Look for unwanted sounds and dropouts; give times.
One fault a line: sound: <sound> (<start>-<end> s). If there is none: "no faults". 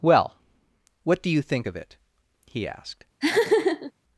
sound: laugh (3.2-3.9 s)